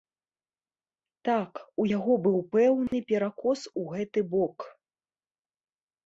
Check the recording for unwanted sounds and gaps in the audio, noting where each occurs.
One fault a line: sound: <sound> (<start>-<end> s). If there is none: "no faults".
sound: dropout (2.9-2.9 s)